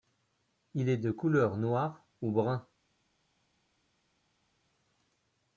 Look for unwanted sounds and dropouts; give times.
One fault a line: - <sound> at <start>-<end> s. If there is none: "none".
none